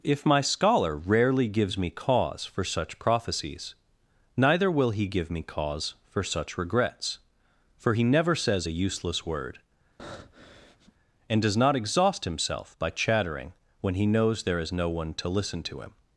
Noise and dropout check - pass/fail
fail